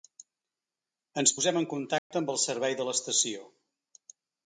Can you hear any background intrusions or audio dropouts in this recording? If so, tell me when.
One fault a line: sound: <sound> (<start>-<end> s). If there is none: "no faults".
sound: dropout (2.0-2.1 s)